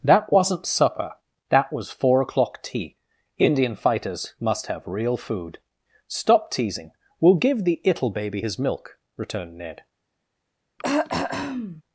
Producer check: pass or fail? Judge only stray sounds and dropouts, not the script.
fail